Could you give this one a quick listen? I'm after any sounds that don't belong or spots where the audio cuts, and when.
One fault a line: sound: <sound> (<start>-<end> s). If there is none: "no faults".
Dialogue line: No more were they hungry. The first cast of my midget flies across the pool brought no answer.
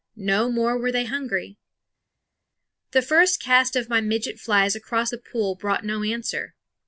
no faults